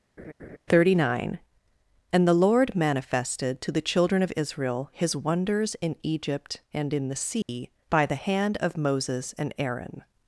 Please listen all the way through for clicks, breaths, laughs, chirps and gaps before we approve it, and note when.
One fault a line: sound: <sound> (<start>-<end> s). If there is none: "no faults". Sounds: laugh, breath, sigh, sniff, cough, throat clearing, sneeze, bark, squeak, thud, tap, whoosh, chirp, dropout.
sound: laugh (0.2-0.6 s)
sound: dropout (7.4-7.5 s)